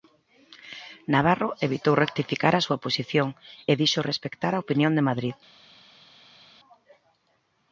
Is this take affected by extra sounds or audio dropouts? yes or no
no